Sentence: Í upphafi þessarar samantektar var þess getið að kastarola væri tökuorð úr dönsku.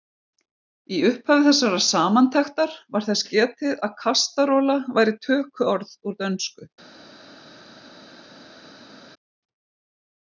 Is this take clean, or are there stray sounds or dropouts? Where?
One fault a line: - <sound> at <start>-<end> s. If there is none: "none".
none